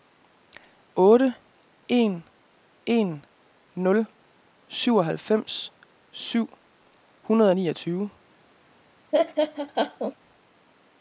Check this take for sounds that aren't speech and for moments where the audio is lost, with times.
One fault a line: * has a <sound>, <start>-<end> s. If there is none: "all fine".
* has a laugh, 9.1-10.1 s